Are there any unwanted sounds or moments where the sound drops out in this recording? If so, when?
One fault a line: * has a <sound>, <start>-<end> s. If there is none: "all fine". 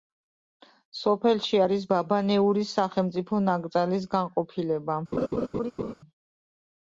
* has a laugh, 5.1-5.9 s